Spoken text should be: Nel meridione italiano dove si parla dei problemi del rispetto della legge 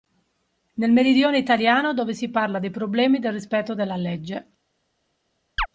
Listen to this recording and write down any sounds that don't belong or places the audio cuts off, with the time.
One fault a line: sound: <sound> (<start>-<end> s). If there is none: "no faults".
sound: chirp (5.6-5.7 s)